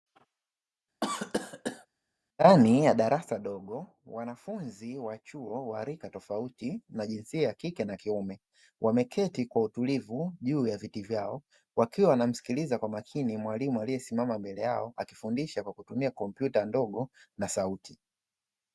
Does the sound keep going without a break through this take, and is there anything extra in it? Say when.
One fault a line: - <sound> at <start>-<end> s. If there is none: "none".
- cough at 1.0-1.9 s